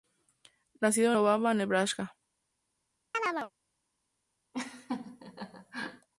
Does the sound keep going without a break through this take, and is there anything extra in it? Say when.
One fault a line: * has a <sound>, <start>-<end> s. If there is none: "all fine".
* has a chirp, 3.1-3.5 s
* has a laugh, 4.5-6.1 s